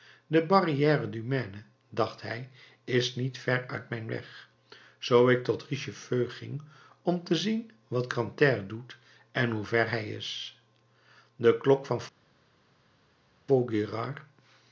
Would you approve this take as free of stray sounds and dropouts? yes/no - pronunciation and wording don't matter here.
yes